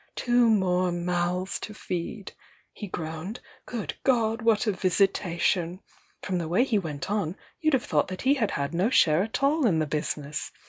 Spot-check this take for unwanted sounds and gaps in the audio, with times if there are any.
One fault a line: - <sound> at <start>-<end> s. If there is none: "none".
none